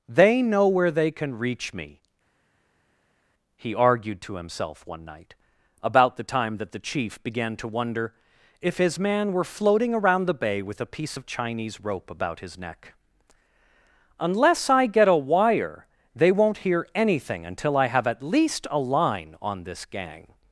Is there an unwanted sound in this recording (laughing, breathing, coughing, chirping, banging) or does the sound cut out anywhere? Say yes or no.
no